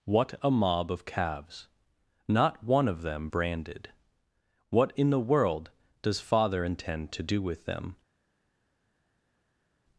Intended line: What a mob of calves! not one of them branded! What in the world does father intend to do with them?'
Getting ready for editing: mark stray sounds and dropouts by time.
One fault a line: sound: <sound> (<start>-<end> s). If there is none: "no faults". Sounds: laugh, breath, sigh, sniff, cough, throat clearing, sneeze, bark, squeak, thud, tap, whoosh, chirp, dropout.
no faults